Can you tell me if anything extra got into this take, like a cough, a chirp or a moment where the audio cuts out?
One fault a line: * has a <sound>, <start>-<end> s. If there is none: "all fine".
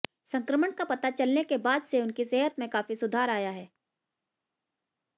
all fine